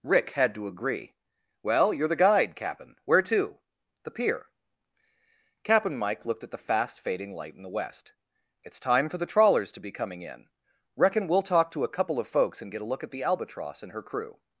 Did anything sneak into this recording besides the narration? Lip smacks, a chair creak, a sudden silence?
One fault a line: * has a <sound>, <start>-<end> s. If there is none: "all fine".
all fine